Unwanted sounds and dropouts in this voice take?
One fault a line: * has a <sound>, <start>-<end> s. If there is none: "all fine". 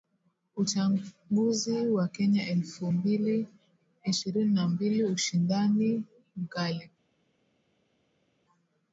all fine